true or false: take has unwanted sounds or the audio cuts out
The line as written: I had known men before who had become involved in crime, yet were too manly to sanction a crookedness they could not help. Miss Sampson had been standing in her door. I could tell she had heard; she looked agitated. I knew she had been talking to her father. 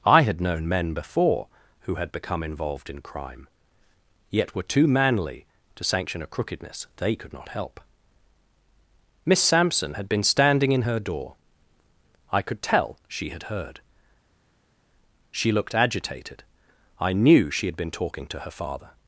false